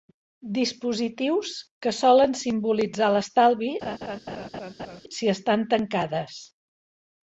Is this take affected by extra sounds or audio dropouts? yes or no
yes